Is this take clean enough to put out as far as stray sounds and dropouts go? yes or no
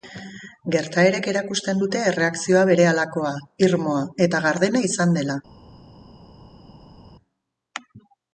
yes